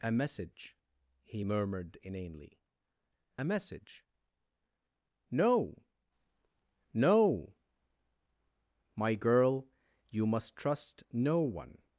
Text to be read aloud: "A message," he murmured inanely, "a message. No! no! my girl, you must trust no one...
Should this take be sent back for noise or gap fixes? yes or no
no